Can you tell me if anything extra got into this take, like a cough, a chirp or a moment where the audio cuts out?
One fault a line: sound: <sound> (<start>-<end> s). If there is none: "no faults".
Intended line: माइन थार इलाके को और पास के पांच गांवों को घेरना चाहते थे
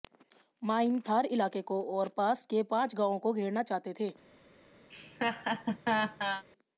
sound: laugh (4.9-6.4 s)